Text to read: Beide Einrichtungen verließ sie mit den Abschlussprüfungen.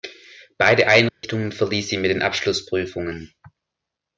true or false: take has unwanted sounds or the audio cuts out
true